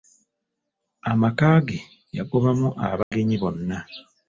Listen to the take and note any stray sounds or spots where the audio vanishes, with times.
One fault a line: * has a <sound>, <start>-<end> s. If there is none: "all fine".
* has a dropout, 3.0-3.1 s